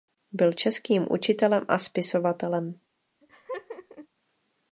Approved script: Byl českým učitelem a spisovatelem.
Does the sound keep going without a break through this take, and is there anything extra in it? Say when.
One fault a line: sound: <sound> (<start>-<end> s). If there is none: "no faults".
sound: laugh (3.2-4.1 s)